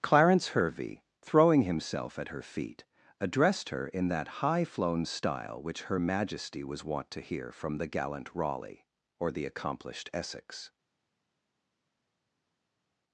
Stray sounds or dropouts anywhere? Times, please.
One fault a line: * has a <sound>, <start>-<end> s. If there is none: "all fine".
all fine